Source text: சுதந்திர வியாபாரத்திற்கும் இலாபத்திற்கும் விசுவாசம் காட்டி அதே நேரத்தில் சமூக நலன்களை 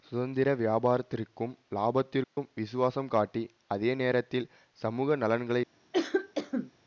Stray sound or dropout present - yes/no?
yes